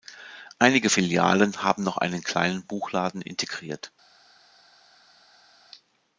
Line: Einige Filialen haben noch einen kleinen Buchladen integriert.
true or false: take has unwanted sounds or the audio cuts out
false